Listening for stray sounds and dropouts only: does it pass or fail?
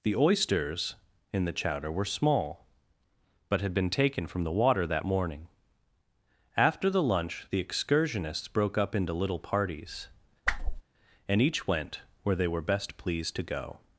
fail